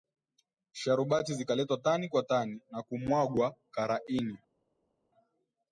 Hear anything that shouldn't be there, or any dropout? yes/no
no